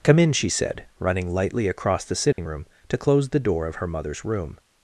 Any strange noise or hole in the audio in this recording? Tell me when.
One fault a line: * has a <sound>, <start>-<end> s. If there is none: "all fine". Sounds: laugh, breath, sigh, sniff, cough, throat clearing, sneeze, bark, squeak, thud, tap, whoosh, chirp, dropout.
* has a dropout, 2.3-2.4 s